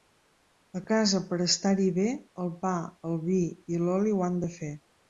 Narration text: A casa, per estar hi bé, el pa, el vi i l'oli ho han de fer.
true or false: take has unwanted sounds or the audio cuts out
false